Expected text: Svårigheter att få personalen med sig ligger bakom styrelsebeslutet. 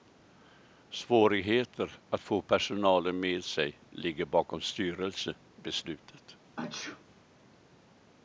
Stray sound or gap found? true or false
true